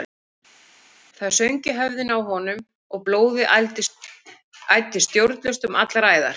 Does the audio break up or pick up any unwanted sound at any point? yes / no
no